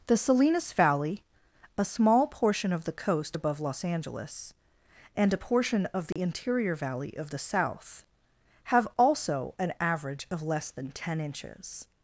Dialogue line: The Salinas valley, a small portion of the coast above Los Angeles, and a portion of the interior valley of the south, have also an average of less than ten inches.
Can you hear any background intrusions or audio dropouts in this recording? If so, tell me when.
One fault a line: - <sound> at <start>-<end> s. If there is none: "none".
- dropout at 6.1-6.2 s